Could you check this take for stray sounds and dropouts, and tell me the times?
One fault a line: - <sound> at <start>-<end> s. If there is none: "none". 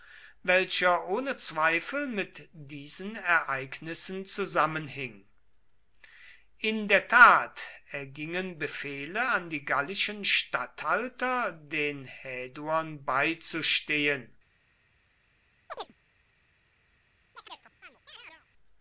- chirp at 15.7-15.9 s
- chirp at 17.4-18.5 s